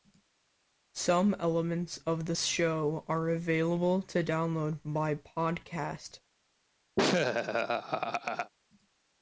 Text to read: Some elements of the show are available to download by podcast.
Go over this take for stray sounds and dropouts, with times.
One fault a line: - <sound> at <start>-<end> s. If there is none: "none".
- laugh at 7.0-8.5 s